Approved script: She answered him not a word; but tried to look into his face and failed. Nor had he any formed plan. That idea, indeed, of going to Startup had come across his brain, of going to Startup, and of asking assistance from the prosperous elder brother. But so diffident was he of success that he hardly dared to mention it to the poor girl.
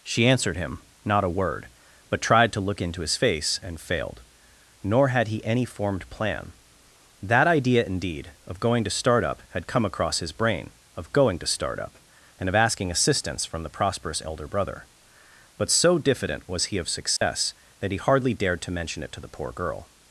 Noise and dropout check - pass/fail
fail